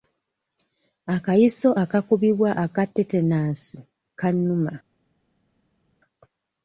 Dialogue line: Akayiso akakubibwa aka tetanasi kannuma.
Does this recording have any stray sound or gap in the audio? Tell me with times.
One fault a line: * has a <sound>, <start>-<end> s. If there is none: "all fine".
all fine